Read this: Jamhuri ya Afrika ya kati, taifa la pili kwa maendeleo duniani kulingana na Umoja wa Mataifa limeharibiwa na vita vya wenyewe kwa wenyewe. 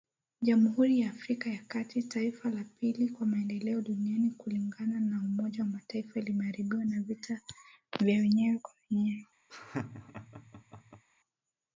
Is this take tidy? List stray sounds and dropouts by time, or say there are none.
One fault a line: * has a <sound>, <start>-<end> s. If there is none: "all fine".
* has a laugh, 9.5-11.0 s